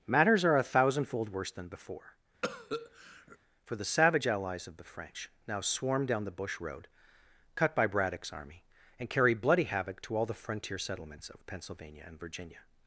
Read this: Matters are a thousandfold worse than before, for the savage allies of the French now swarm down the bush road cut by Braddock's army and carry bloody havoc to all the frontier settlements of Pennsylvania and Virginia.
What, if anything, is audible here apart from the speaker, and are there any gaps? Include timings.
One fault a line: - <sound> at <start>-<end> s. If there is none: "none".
- cough at 2.4-3.4 s